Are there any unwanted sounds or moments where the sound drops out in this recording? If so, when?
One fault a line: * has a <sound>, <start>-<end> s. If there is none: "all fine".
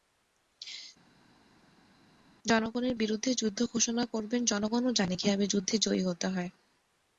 all fine